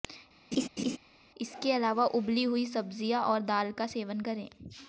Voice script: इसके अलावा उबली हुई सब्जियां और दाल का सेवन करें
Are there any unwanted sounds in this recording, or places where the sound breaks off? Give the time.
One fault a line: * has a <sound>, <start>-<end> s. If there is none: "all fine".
* has a laugh, 0.5-1.0 s